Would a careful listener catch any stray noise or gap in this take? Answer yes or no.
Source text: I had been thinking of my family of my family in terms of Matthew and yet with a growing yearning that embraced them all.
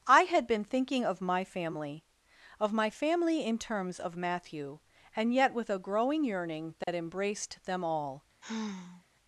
yes